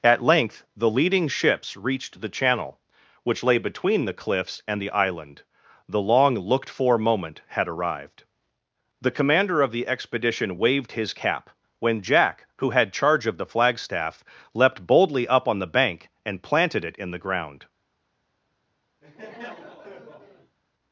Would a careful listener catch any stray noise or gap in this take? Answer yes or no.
yes